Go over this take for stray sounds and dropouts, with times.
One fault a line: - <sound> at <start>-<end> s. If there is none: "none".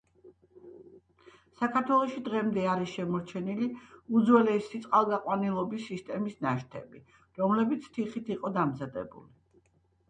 none